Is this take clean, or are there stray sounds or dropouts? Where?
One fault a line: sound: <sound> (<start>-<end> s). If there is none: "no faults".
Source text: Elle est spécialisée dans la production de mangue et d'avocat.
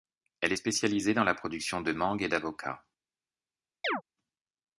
sound: chirp (3.8-4.0 s)